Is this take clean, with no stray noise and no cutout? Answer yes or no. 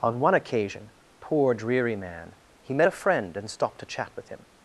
yes